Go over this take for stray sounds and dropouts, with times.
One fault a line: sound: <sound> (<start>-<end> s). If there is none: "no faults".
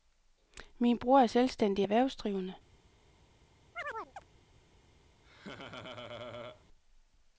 sound: chirp (3.8-4.2 s)
sound: laugh (5.2-6.6 s)